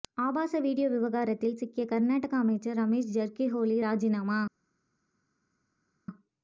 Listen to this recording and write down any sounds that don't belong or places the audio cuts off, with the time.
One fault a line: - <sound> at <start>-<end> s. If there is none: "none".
none